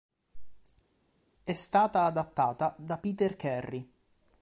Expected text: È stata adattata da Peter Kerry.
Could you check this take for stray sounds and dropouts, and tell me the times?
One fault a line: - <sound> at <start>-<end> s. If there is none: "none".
none